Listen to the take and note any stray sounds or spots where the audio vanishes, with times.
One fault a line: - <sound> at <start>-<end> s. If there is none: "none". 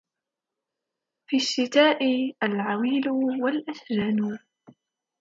none